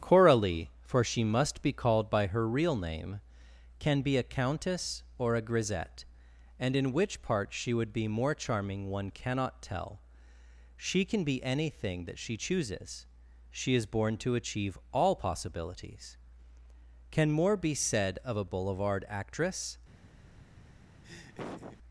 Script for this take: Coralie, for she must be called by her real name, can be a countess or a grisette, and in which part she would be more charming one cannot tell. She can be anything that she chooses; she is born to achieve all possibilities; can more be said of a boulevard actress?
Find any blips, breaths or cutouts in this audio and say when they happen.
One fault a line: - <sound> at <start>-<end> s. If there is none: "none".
- laugh at 21.0-21.8 s